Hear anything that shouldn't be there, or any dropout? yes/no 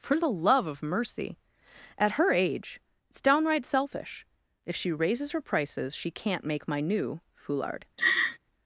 yes